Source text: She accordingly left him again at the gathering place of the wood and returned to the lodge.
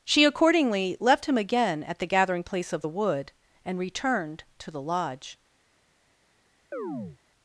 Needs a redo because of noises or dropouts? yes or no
yes